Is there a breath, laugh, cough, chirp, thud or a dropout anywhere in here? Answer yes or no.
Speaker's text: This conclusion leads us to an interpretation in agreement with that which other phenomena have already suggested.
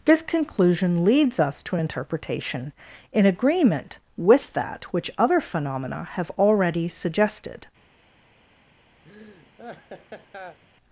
yes